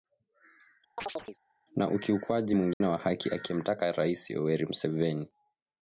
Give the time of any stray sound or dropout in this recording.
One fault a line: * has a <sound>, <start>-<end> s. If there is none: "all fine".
* has a chirp, 1.0-1.4 s
* has a dropout, 2.7-2.8 s